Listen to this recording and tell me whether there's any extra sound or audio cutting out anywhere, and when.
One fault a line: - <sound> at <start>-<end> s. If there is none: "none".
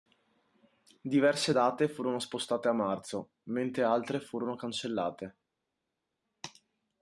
none